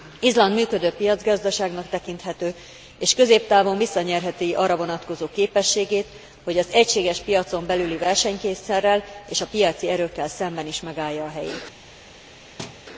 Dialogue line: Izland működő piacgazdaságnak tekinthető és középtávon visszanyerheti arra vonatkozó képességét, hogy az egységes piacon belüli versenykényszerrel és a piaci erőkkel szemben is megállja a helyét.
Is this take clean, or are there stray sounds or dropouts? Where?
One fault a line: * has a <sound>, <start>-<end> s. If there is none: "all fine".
* has a thud, 12.6-12.9 s